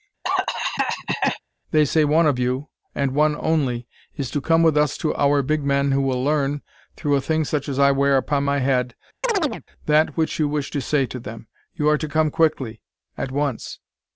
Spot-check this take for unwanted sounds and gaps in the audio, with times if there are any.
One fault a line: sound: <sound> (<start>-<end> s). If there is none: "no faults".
sound: cough (0.2-1.4 s)
sound: chirp (9.2-9.6 s)